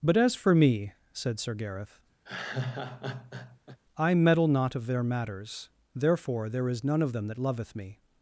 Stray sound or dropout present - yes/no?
yes